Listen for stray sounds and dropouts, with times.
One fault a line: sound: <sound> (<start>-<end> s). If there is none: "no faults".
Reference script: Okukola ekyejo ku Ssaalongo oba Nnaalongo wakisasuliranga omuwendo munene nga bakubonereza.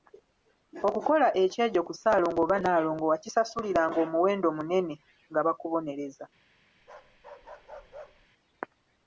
sound: bark (6.8-8.3 s)